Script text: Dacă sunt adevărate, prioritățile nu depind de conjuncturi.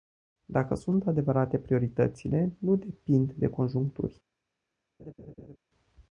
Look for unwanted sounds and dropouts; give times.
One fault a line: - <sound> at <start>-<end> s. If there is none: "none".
- laugh at 5.0-5.6 s